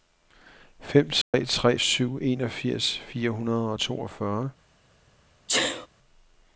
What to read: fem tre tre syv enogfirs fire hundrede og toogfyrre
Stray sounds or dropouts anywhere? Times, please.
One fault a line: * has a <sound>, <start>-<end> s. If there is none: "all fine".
* has a dropout, 1.2-1.3 s
* has a sneeze, 5.5-5.9 s